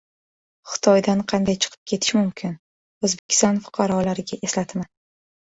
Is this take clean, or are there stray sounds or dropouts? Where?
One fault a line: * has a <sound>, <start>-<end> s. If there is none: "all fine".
* has a dropout, 3.2-3.3 s